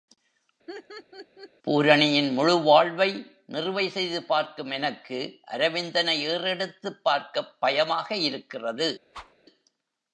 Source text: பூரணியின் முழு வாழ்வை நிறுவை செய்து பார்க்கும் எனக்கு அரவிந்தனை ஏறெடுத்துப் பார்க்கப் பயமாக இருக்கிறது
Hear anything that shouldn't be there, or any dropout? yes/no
yes